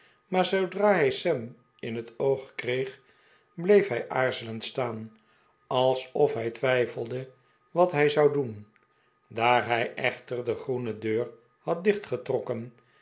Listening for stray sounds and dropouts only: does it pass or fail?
pass